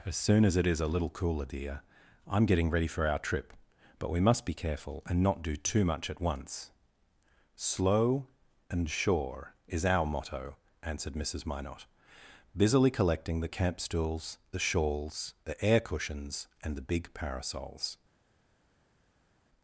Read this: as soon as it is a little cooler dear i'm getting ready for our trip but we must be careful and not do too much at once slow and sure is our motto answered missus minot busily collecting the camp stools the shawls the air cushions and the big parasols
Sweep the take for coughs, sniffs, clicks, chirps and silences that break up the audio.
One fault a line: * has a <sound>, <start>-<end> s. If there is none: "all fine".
all fine